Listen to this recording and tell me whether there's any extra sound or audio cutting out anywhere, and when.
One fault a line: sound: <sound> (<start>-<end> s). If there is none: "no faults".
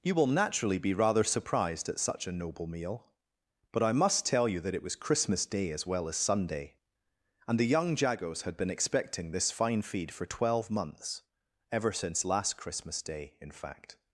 no faults